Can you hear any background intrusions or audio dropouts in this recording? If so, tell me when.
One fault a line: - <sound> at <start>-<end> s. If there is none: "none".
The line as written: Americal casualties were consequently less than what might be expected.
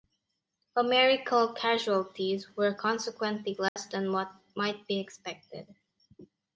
- dropout at 3.7-3.8 s